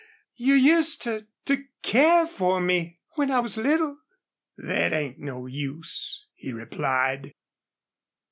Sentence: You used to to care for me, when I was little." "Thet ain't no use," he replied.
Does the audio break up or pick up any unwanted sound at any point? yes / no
no